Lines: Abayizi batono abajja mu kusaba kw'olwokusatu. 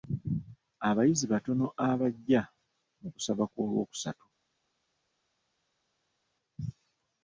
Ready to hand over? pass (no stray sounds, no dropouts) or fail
pass